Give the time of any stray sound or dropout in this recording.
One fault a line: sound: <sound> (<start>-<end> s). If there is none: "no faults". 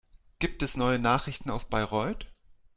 no faults